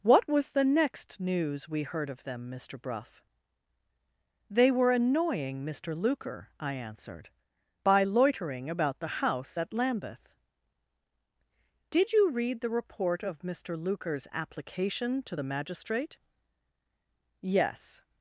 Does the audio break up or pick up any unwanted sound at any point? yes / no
no